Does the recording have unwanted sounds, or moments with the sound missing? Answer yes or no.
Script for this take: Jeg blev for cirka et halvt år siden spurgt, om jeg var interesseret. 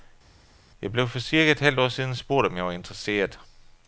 no